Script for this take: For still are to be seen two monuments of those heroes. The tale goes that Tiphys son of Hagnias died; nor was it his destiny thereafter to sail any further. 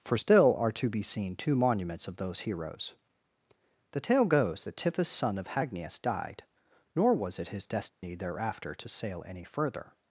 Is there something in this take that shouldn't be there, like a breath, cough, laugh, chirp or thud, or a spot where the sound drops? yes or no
yes